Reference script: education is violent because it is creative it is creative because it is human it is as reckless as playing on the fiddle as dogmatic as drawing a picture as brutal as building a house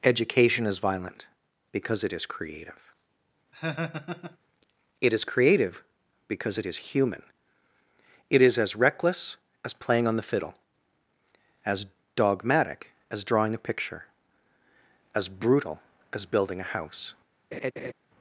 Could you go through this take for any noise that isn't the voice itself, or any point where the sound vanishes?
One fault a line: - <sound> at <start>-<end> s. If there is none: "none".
- laugh at 3.5-4.4 s
- laugh at 17.5-17.9 s